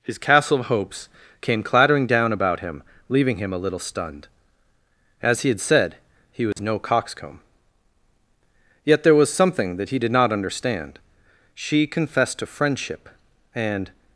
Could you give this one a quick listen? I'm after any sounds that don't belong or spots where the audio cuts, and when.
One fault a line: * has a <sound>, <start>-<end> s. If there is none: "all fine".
* has a dropout, 6.5-6.6 s